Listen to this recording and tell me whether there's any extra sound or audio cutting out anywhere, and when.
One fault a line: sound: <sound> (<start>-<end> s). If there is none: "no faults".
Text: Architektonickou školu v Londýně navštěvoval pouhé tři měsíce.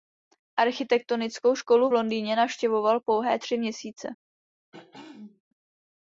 sound: throat clearing (4.7-5.4 s)